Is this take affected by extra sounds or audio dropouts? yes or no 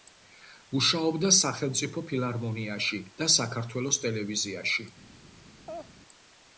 yes